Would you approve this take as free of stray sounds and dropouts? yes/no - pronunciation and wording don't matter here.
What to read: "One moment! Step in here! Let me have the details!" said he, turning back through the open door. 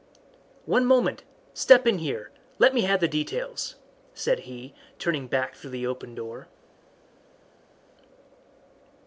yes